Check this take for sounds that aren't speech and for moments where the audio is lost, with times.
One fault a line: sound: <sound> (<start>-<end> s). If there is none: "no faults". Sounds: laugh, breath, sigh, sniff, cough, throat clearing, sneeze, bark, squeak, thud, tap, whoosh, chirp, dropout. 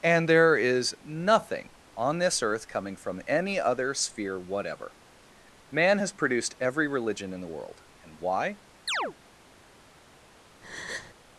sound: chirp (8.9-9.1 s)
sound: breath (10.6-11.1 s)